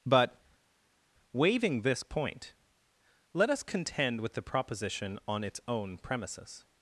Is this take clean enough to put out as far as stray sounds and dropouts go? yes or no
yes